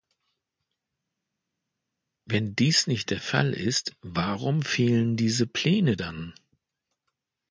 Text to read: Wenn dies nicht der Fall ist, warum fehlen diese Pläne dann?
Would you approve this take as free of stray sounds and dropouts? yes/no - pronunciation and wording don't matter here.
yes